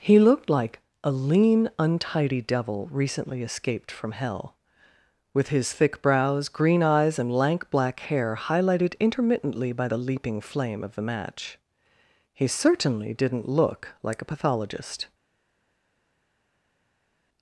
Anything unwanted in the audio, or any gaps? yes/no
no